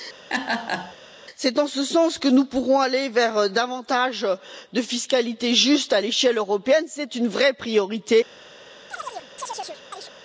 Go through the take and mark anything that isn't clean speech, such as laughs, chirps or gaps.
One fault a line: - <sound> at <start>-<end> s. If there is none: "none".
- laugh at 0.3-1.0 s
- chirp at 8.9-10.1 s